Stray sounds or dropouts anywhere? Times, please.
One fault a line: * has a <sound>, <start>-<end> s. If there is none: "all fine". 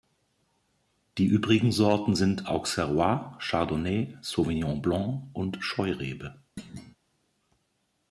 * has a thud, 6.6-7.0 s